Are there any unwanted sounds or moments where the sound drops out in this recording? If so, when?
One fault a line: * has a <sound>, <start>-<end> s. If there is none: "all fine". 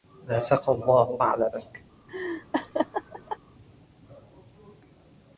* has a laugh, 2.1-3.4 s